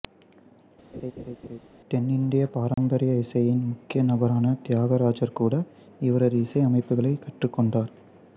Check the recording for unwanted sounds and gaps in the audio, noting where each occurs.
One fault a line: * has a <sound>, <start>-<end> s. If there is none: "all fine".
* has a laugh, 0.9-1.6 s
* has a dropout, 2.7-2.8 s